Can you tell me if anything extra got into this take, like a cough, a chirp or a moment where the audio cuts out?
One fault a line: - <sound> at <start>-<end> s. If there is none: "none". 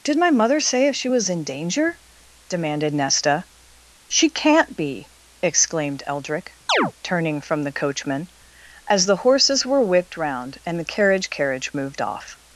- chirp at 6.7-6.9 s